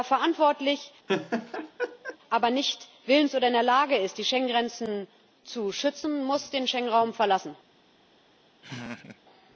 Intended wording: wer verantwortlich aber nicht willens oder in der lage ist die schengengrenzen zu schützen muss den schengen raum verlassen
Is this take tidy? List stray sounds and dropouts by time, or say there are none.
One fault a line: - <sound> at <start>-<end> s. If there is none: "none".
- laugh at 1.1-2.2 s
- laugh at 8.6-9.2 s